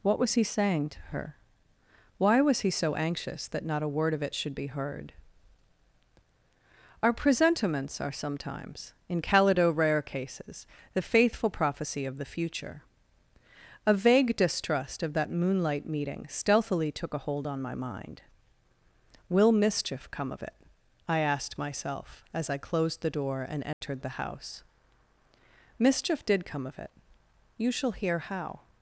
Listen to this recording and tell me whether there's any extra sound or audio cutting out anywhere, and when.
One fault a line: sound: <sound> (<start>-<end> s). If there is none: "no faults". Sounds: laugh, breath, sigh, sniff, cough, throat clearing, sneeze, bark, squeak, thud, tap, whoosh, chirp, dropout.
sound: dropout (23.7-23.8 s)